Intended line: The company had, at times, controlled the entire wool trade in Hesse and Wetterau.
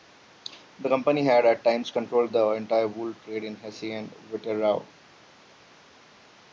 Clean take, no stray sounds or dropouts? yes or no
yes